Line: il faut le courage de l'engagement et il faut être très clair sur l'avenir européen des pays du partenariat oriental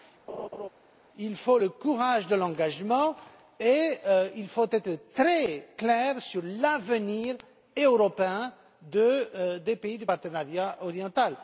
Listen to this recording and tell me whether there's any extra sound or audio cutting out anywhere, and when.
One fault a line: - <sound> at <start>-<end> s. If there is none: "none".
- laugh at 0.3-0.7 s